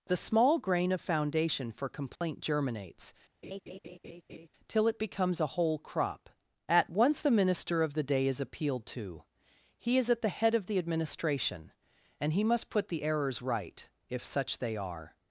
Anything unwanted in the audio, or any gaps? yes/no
yes